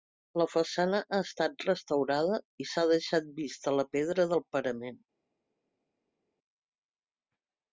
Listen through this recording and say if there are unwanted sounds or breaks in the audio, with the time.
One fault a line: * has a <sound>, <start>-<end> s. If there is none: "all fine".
all fine